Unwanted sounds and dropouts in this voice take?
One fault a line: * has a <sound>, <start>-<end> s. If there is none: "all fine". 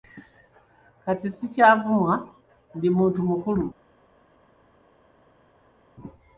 all fine